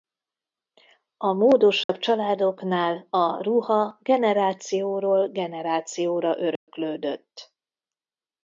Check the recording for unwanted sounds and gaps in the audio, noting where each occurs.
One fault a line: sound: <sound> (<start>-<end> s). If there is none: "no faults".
sound: dropout (1.8-1.9 s)
sound: dropout (6.6-6.7 s)